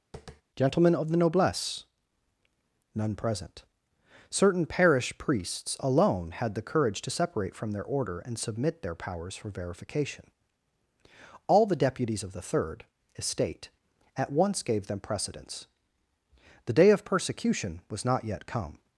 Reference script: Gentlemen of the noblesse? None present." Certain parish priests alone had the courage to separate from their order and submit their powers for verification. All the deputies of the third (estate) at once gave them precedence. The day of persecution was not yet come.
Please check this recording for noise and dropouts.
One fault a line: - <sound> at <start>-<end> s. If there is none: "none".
- tap at 0.1-0.4 s